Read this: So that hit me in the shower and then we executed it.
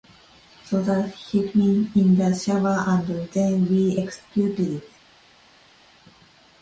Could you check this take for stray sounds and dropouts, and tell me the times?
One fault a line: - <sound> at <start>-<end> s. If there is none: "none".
none